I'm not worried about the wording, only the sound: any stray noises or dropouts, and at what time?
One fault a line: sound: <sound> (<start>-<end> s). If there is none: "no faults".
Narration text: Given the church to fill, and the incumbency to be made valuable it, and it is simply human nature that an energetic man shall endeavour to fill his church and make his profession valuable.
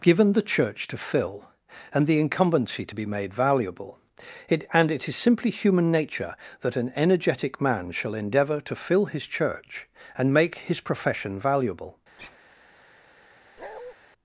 sound: sigh (12.2-12.4 s)
sound: bark (13.6-13.9 s)